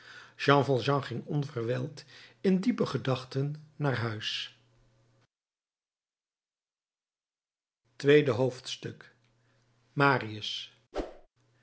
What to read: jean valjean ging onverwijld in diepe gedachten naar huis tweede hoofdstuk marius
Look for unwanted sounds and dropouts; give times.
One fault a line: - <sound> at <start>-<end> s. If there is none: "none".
- whoosh at 10.9-11.3 s